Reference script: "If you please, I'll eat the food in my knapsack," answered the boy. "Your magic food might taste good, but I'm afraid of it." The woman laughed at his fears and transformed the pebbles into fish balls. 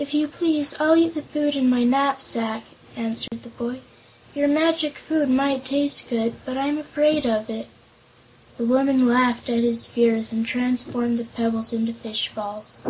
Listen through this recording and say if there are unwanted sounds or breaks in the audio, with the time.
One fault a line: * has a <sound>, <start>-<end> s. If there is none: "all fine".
* has a dropout, 3.3-3.3 s